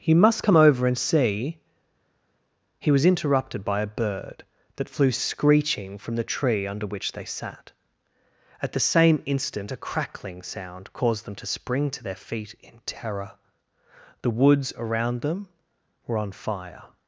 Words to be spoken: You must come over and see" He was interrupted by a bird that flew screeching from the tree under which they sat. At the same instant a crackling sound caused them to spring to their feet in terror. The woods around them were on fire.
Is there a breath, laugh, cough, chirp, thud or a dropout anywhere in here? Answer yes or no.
no